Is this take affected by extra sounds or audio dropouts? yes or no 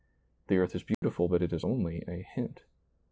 yes